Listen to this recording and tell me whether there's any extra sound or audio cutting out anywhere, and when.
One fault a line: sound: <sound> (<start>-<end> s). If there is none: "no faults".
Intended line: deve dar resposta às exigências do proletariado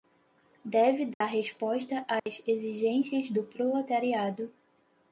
sound: dropout (1.1-1.2 s)
sound: dropout (2.2-2.3 s)